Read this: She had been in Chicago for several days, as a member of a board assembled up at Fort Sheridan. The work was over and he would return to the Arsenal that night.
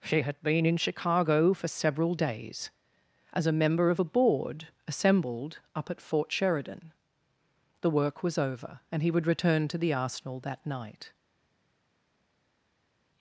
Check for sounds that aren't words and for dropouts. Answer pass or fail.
pass